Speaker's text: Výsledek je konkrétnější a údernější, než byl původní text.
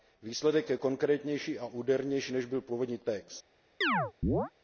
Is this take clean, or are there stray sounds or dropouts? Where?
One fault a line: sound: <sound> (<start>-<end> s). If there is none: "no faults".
sound: chirp (3.8-4.5 s)